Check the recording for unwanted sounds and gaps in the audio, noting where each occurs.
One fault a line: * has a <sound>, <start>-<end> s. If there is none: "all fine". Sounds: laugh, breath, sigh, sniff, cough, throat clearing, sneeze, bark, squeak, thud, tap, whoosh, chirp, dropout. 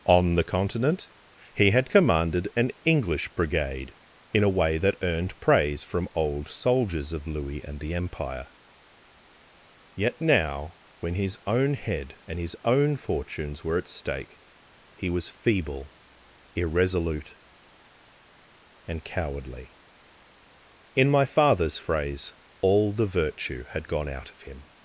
all fine